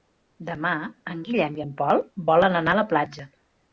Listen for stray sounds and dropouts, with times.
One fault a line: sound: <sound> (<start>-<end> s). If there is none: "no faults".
no faults